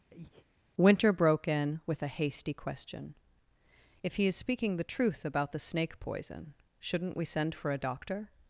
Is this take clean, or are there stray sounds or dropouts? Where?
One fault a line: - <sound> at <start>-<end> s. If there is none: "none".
- breath at 0.1-0.5 s